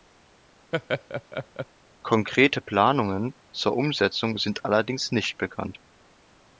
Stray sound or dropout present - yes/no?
yes